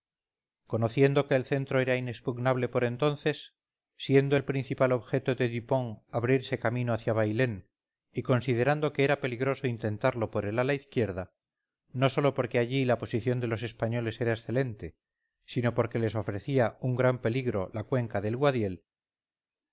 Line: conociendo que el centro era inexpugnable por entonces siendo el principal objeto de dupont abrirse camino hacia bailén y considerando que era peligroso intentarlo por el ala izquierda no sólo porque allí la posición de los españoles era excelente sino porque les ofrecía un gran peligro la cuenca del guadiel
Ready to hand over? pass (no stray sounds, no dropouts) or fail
pass